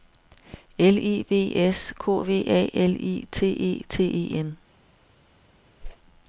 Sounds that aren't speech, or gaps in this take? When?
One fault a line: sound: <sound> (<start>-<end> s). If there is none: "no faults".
sound: whoosh (5.8-6.0 s)